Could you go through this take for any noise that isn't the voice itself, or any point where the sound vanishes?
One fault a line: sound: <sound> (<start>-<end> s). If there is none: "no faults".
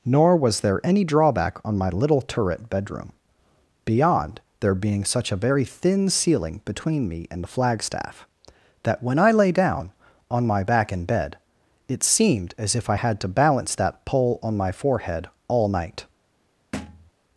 sound: thud (16.7-17.1 s)